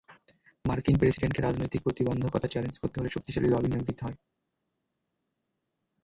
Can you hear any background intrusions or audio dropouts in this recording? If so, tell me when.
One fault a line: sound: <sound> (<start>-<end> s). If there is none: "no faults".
no faults